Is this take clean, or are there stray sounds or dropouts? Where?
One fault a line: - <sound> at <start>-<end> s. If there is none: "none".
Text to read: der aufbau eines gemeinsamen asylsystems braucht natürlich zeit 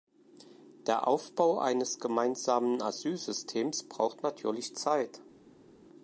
none